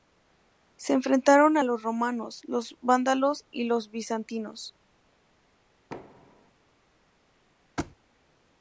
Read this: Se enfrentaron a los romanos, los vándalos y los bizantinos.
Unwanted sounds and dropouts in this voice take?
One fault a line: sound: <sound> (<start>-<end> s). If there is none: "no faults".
sound: thud (5.9-6.5 s)
sound: thud (7.8-8.0 s)